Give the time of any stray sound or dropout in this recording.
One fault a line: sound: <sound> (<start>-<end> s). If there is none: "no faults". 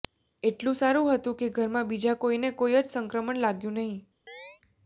sound: chirp (4.3-4.6 s)